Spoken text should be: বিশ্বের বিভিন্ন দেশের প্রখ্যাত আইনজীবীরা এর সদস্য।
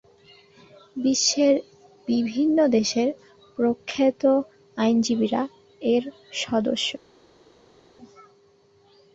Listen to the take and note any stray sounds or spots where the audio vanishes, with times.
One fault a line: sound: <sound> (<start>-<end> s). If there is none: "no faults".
no faults